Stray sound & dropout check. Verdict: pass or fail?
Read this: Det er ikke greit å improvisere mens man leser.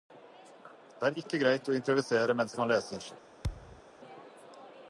fail